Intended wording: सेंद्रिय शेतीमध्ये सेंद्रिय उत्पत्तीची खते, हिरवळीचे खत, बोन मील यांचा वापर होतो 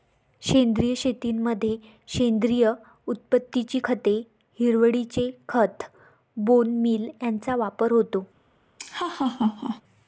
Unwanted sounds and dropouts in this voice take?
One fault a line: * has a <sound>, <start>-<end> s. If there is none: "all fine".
* has a laugh, 8.8-9.8 s